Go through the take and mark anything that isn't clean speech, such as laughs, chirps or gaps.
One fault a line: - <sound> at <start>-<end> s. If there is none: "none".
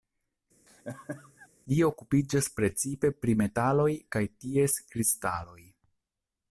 - laugh at 0.7-1.5 s